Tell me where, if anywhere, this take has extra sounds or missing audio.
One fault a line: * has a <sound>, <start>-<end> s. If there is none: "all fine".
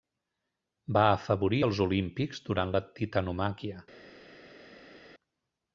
all fine